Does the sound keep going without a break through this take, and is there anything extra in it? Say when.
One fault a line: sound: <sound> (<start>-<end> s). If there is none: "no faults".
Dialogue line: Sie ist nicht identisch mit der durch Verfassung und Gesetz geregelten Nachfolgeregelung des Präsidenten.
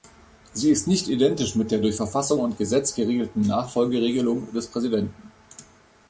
no faults